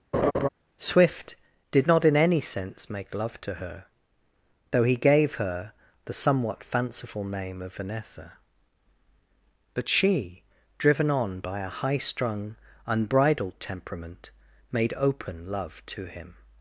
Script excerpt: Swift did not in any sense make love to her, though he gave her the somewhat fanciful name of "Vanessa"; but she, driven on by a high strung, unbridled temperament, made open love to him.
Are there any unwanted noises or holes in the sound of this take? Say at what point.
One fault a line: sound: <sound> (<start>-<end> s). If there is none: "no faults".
sound: laugh (0.1-0.5 s)